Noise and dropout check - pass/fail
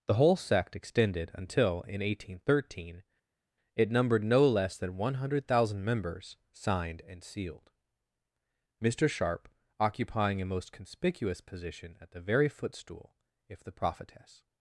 pass